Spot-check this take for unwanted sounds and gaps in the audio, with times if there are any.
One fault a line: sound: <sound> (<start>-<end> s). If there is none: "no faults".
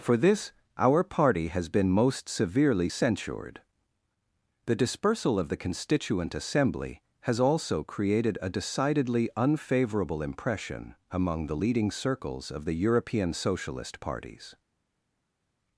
no faults